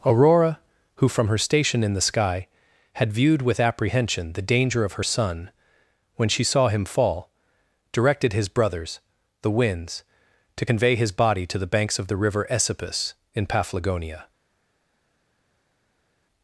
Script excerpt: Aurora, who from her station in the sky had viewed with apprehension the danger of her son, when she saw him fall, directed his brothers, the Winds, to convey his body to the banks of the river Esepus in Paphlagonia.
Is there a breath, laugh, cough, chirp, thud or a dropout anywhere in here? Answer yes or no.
no